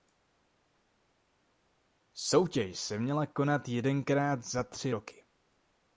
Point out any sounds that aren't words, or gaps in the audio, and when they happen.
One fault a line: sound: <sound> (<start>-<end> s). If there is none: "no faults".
no faults